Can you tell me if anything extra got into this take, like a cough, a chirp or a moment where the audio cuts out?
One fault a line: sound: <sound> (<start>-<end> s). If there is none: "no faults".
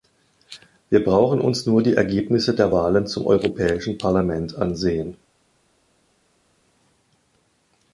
no faults